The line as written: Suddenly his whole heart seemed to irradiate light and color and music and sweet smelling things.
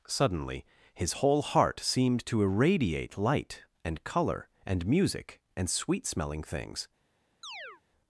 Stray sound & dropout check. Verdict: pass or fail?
fail